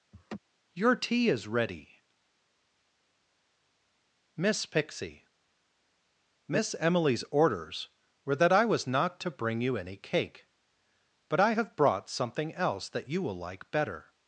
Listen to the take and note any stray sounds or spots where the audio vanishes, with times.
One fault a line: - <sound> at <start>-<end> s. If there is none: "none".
- laugh at 0.1-0.4 s